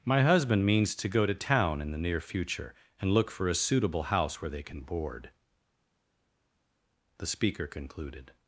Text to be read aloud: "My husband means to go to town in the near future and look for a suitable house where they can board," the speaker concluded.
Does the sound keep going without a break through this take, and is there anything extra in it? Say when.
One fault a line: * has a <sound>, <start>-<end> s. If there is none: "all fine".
all fine